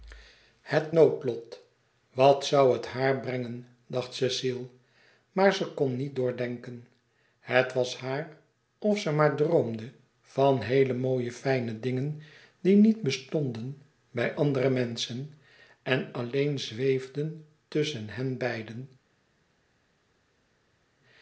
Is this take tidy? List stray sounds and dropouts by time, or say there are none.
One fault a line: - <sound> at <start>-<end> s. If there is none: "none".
none